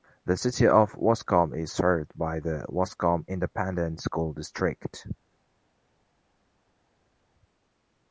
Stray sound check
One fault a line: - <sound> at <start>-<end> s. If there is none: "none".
none